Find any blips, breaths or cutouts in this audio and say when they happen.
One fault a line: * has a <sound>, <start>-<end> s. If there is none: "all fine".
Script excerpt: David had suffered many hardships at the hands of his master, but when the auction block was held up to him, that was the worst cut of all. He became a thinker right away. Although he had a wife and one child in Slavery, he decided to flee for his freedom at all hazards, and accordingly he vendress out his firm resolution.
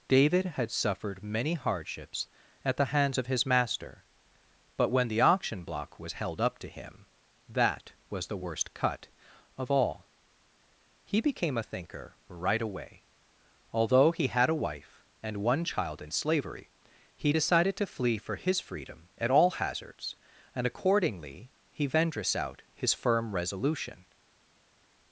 all fine